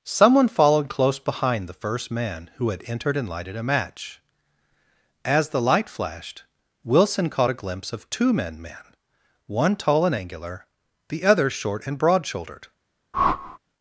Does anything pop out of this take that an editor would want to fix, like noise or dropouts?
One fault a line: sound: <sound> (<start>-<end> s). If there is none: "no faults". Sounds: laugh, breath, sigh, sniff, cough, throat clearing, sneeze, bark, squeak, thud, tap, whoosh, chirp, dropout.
sound: whoosh (13.1-13.6 s)